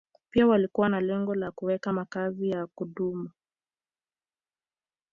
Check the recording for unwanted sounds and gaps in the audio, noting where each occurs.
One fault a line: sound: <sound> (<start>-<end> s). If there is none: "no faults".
no faults